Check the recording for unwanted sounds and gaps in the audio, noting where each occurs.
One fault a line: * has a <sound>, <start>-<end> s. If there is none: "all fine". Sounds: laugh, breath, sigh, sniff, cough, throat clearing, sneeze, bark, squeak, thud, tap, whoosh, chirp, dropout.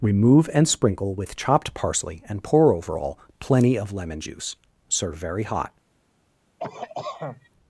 * has a cough, 6.6-7.5 s